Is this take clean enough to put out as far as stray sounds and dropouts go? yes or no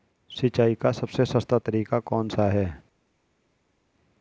yes